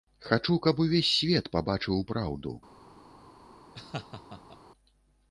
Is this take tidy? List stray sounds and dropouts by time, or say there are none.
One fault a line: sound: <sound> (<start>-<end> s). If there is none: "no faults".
sound: laugh (3.7-4.6 s)